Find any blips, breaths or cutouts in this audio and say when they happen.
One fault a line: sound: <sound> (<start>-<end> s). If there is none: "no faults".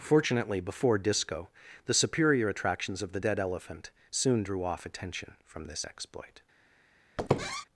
sound: squeak (7.2-7.6 s)